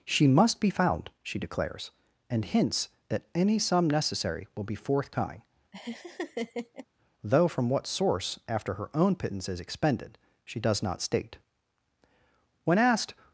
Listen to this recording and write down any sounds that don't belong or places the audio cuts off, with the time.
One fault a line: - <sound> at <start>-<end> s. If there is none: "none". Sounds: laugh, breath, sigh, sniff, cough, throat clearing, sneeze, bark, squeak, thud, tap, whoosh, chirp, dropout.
- laugh at 5.7-6.9 s